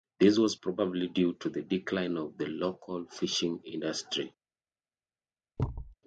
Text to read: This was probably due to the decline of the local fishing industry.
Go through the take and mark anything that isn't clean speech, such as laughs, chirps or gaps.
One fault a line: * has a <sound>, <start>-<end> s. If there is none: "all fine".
* has a thud, 5.6-6.0 s